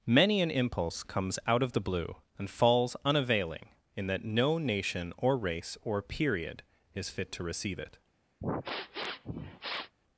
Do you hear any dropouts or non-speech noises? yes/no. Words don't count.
yes